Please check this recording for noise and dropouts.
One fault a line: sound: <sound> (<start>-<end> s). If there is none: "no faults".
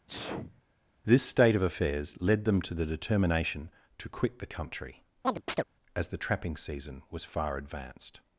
sound: sneeze (0.1-0.6 s)
sound: chirp (5.2-5.6 s)